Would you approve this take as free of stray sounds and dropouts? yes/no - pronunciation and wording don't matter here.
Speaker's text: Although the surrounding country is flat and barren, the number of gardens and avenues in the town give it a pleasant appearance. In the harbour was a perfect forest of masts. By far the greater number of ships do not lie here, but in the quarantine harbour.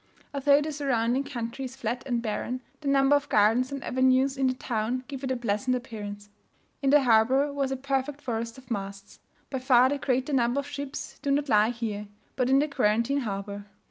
yes